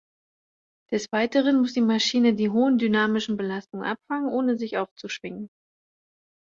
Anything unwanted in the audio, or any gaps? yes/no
no